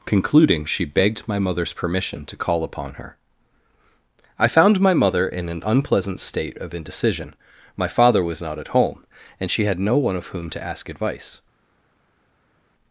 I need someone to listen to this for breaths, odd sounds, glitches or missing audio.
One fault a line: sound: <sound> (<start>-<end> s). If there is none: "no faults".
no faults